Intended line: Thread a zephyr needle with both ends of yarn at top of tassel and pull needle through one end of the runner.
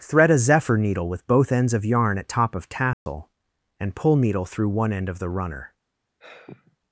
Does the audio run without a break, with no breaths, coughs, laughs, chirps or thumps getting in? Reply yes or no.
no